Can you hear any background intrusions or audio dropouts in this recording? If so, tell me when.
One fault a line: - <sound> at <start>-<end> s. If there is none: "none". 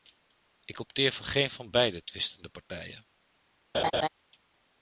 - laugh at 3.7-4.1 s